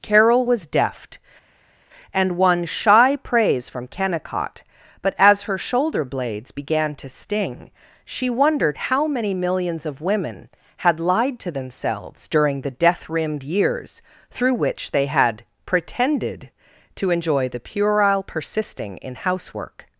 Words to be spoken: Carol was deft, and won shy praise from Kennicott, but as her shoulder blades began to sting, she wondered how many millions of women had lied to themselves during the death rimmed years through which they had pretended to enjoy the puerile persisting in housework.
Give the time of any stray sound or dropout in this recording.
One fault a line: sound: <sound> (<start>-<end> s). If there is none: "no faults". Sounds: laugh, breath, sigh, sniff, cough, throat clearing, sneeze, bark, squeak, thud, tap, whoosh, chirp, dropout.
no faults